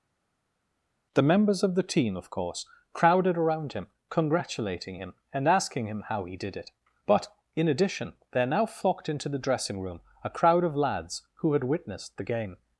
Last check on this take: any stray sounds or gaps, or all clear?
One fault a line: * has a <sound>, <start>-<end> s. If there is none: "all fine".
all fine